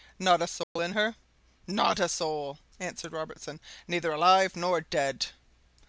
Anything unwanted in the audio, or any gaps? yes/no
yes